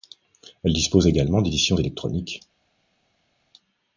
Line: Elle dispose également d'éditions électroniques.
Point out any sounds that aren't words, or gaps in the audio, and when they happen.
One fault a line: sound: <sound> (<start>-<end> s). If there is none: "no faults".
no faults